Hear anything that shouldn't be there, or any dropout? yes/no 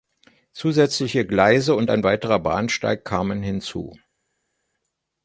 no